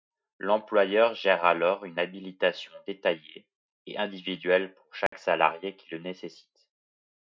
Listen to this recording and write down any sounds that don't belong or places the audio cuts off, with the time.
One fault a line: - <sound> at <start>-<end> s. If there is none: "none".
- dropout at 5.1-5.1 s